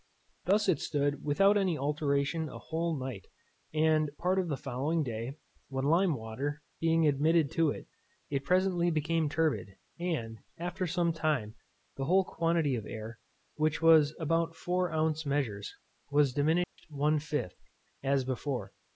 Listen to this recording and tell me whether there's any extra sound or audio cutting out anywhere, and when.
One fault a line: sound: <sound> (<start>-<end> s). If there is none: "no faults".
sound: dropout (16.6-16.8 s)